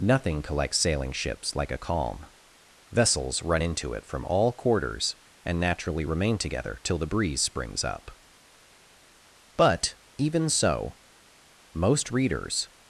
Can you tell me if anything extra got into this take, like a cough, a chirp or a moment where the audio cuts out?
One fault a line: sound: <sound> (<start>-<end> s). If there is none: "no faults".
no faults